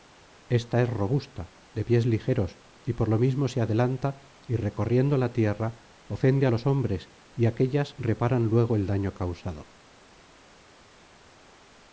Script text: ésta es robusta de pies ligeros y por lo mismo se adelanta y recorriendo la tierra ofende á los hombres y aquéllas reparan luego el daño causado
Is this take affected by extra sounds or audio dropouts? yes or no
no